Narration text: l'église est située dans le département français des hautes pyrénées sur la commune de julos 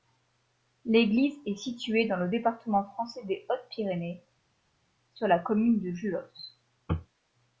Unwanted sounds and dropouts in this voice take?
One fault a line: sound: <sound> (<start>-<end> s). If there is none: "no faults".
no faults